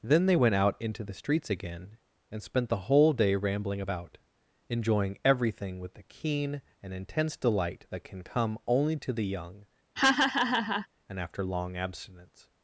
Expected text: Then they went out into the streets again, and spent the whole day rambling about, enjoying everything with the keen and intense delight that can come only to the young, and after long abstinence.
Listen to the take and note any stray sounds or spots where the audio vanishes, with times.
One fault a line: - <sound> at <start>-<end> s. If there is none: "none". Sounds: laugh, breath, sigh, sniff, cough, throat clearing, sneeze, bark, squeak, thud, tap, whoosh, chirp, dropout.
- laugh at 10.0-10.9 s